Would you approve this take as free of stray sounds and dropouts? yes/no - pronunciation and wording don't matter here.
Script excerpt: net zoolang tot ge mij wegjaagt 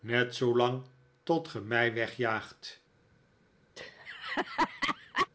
no